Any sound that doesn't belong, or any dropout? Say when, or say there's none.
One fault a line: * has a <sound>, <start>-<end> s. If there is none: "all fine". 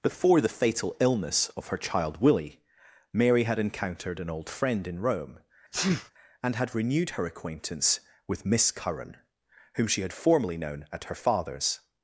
* has a sneeze, 5.7-6.1 s